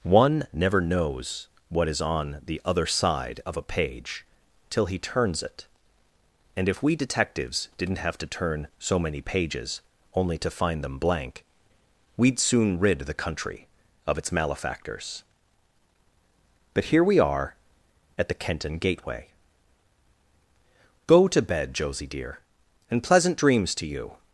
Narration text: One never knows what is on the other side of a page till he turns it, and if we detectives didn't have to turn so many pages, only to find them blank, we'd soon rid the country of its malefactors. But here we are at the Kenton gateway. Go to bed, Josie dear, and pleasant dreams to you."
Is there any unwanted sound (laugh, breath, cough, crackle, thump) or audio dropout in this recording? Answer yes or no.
no